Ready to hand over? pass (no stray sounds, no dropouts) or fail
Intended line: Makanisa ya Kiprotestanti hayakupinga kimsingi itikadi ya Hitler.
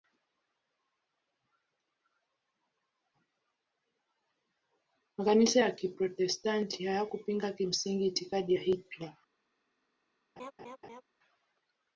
fail